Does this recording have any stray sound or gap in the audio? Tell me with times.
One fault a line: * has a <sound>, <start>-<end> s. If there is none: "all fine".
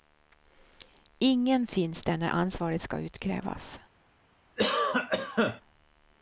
* has a cough, 4.6-5.6 s